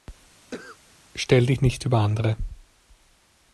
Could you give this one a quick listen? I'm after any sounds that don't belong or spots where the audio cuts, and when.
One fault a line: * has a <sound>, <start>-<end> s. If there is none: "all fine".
* has a cough, 0.5-0.8 s